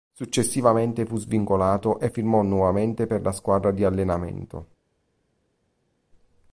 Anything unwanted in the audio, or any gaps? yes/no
no